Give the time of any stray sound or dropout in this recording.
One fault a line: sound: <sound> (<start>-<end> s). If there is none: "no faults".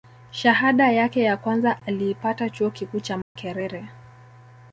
sound: dropout (3.2-3.4 s)